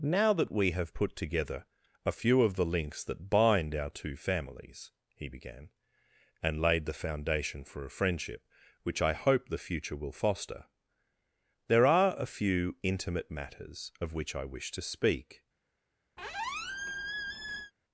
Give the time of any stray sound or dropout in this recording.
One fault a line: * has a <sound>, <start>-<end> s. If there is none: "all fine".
* has a squeak, 16.2-17.7 s